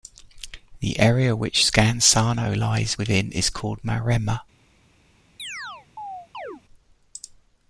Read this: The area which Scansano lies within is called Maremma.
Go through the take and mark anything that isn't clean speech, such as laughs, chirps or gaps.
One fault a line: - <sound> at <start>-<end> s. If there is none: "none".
- chirp at 5.4-6.6 s